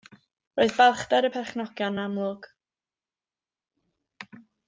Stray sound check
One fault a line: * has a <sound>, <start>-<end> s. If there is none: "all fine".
all fine